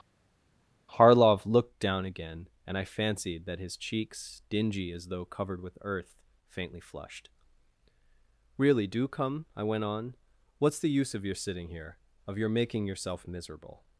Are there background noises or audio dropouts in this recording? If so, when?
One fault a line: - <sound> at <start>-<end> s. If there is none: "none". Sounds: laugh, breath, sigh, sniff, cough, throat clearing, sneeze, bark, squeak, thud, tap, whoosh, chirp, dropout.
none